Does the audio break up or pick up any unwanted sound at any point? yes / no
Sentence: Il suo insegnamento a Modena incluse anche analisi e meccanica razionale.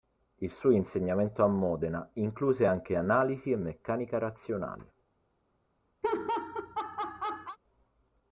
yes